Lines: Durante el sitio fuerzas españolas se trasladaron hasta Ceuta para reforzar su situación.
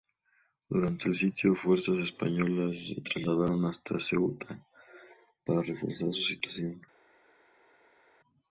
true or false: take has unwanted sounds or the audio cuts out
false